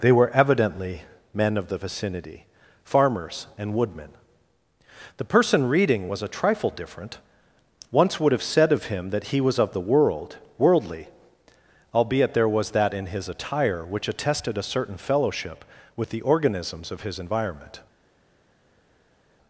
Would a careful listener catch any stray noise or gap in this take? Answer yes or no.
no